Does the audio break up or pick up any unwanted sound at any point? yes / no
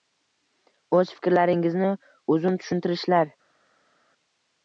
no